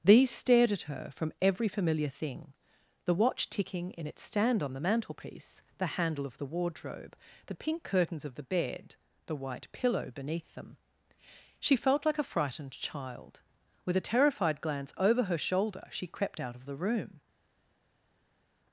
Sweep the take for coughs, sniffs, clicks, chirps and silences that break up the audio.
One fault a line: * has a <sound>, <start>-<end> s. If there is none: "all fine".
all fine